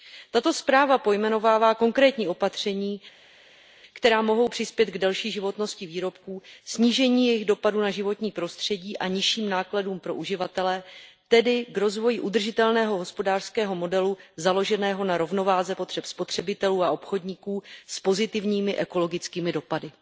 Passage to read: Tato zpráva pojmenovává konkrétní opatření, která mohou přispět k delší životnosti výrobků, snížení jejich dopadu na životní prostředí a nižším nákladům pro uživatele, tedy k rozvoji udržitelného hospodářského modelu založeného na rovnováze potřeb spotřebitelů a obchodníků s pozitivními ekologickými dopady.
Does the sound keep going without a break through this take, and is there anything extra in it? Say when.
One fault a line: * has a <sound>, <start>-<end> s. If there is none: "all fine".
all fine